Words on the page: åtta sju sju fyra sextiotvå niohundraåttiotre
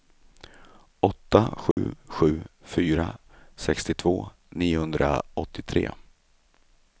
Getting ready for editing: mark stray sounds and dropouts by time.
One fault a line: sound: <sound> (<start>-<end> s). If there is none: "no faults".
sound: dropout (1.7-1.8 s)